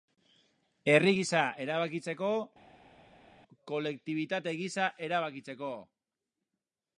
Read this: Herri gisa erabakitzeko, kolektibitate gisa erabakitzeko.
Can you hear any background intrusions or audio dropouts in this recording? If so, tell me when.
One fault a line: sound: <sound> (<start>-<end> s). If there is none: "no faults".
no faults